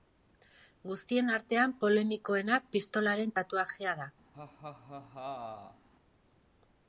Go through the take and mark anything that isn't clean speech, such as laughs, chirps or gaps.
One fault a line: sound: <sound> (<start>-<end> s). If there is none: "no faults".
sound: laugh (4.3-5.9 s)